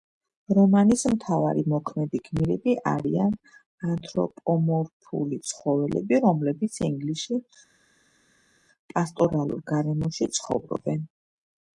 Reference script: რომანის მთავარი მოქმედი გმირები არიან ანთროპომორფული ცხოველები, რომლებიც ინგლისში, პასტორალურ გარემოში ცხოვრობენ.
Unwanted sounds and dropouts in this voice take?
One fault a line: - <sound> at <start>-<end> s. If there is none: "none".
none